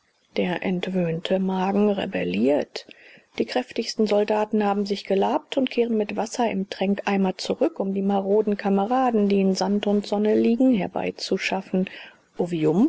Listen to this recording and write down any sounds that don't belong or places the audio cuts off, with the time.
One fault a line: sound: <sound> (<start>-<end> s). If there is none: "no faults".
no faults